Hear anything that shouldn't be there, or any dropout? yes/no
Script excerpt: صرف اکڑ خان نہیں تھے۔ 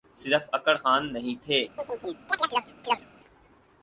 yes